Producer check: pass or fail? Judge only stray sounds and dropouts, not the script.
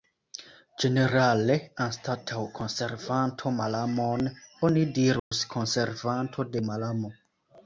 fail